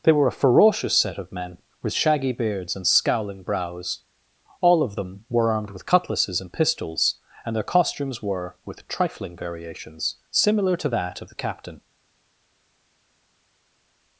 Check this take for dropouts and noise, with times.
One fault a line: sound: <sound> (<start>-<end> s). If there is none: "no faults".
no faults